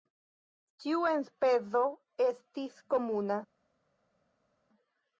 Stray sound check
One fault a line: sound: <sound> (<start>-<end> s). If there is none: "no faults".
no faults